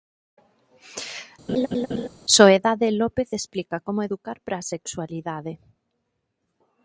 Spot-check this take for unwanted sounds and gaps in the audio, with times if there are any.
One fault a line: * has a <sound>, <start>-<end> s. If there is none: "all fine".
* has a laugh, 1.5-2.1 s